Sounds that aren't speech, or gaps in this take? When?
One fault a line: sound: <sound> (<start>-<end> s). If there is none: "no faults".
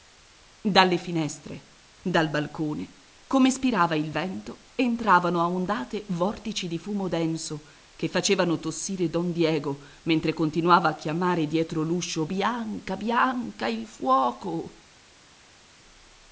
no faults